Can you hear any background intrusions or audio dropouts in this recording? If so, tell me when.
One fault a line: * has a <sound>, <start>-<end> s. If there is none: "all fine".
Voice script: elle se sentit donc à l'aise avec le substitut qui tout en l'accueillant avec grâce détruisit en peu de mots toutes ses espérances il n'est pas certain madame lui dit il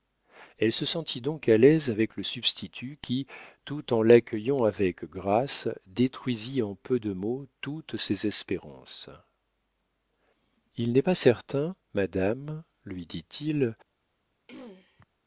* has a throat clearing, 14.5-15.0 s